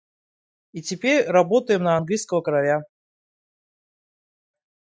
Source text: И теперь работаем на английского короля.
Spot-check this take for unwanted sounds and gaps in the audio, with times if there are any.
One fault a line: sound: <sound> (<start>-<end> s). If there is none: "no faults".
no faults